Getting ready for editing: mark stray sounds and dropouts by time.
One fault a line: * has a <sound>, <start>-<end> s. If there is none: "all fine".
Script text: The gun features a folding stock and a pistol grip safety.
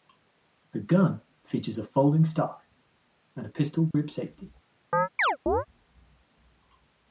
* has a dropout, 3.9-3.9 s
* has a chirp, 4.9-5.7 s